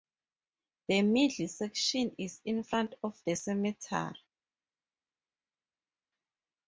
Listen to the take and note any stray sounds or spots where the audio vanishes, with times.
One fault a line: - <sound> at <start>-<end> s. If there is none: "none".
none